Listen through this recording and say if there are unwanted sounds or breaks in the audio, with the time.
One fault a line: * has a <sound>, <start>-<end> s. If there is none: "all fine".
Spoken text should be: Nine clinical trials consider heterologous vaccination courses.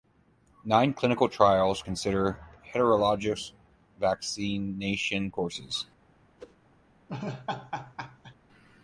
* has a whoosh, 6.4-6.6 s
* has a laugh, 7.1-8.3 s